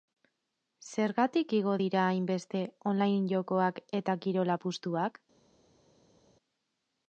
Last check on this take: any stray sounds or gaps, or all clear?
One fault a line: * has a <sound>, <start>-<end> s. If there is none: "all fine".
all fine